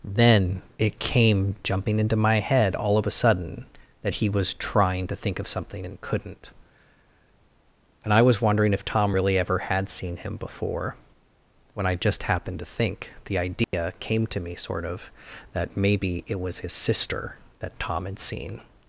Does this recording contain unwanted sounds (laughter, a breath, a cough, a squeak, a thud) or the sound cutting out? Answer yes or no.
yes